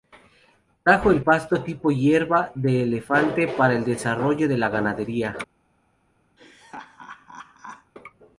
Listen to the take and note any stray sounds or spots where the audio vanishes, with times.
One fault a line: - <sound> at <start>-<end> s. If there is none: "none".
- laugh at 6.4-7.9 s